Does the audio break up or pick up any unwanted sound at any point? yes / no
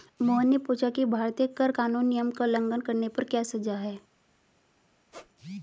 yes